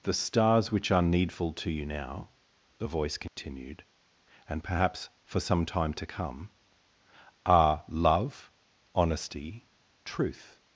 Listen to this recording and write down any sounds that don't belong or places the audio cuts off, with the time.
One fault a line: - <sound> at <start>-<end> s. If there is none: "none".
- dropout at 3.3-3.4 s